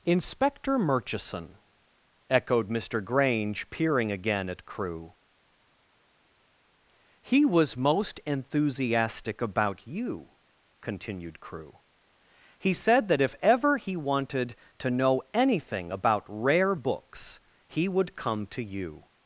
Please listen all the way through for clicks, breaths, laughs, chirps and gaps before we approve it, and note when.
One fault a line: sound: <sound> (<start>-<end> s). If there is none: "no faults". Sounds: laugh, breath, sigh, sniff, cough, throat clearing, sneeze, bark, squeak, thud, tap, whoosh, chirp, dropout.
no faults